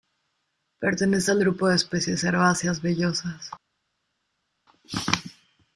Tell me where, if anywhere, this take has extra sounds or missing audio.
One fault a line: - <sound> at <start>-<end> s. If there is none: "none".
none